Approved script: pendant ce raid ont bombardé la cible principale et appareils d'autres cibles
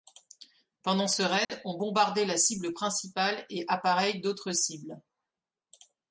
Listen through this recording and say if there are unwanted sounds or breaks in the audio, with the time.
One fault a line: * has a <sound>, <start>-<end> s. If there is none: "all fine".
* has a dropout, 1.4-1.5 s